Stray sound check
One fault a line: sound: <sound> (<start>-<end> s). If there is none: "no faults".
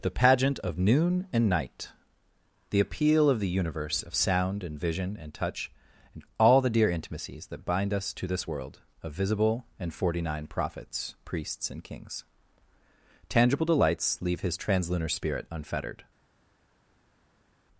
no faults